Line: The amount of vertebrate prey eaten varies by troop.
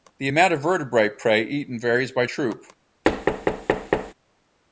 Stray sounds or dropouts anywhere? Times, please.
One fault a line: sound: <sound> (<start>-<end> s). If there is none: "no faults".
sound: thud (3.0-4.1 s)